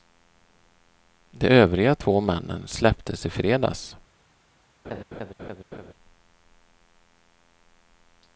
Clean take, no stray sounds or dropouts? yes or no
no